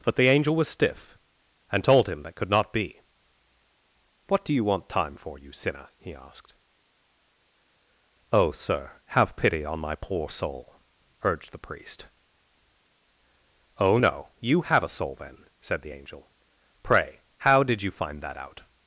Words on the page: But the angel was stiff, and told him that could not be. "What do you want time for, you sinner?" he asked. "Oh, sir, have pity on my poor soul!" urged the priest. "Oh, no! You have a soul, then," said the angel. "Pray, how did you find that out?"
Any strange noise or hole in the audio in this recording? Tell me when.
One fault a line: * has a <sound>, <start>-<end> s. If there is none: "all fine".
all fine